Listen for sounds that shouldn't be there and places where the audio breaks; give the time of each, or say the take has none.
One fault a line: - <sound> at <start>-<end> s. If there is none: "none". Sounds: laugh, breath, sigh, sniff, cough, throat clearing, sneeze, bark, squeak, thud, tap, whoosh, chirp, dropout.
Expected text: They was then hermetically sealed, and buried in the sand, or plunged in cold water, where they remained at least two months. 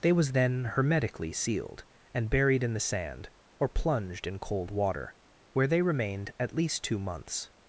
none